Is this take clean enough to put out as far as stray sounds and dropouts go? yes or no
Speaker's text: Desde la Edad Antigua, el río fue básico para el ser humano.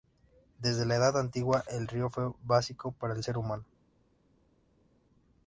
yes